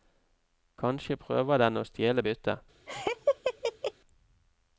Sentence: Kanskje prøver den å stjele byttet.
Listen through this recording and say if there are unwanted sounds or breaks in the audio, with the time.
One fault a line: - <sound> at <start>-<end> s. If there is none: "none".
- laugh at 2.9-3.9 s